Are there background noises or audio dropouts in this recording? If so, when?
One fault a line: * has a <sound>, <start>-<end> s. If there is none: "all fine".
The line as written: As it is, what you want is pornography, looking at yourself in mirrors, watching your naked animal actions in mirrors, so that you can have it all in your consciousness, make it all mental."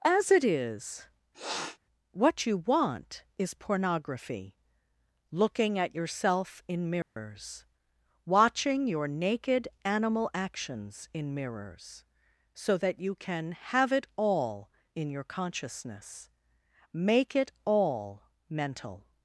* has a sniff, 1.3-1.8 s
* has a dropout, 7.0-7.2 s